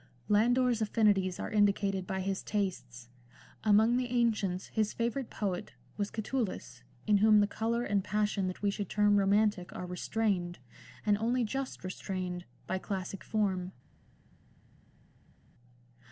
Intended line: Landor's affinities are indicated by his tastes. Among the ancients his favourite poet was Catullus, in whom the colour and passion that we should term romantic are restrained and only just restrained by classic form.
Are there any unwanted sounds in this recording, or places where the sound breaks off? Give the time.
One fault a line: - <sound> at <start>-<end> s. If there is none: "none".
none